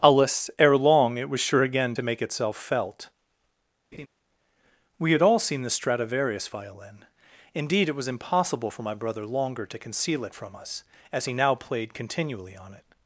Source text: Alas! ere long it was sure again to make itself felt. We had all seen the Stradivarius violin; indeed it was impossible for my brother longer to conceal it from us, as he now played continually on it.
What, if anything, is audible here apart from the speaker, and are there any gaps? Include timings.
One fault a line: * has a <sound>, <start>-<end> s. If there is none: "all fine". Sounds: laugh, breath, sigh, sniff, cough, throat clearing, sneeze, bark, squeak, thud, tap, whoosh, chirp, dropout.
* has a laugh, 3.9-4.1 s